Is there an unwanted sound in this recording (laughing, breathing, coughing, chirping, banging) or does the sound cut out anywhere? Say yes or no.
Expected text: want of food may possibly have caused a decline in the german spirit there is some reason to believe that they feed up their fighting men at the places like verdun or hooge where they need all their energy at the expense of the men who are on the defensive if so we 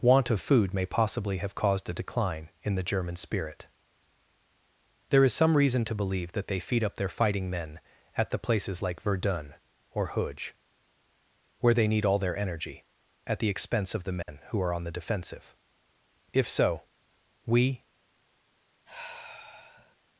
yes